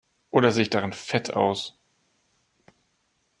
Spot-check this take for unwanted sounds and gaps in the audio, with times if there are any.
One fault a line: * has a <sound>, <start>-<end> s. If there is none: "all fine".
all fine